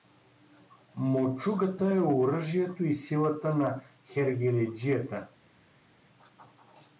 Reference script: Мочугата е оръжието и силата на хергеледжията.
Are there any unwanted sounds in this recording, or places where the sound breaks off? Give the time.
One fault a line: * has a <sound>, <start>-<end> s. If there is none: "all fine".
all fine